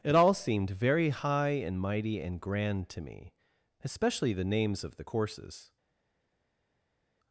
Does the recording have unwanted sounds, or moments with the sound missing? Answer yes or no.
no